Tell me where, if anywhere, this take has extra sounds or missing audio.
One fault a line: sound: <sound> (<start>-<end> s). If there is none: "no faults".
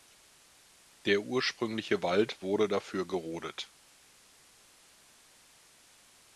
no faults